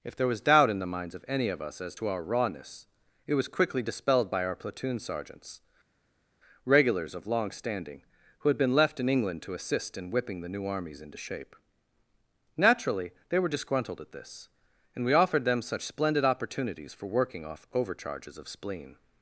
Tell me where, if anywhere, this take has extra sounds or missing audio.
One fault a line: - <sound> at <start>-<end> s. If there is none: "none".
none